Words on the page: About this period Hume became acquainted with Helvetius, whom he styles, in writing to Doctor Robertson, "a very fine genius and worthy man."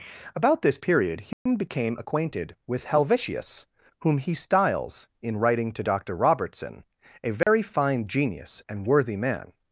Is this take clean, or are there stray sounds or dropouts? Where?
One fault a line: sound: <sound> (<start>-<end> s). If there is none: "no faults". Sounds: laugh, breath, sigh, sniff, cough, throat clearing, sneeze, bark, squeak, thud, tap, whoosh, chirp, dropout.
sound: dropout (1.3-1.5 s)
sound: dropout (7.4-7.5 s)